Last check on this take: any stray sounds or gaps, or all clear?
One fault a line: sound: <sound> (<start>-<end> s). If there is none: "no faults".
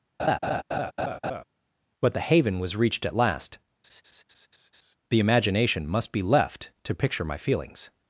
sound: laugh (0.2-1.4 s)
sound: laugh (3.8-5.0 s)